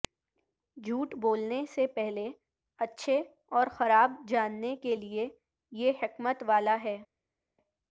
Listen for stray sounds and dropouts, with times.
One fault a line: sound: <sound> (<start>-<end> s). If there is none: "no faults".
no faults